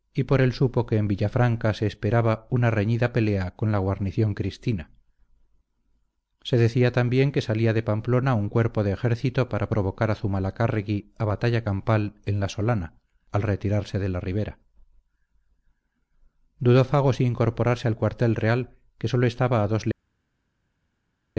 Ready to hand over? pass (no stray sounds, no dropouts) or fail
pass